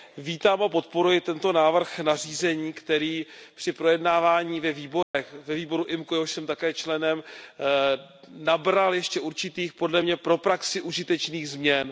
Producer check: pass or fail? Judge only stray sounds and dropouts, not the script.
fail